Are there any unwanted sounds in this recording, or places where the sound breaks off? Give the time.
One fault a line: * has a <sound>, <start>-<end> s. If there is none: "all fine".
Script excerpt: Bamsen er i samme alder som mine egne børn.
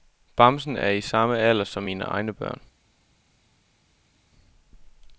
all fine